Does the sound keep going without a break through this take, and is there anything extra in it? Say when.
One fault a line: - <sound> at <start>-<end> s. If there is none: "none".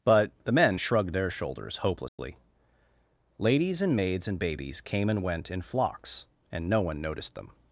- dropout at 2.1-2.2 s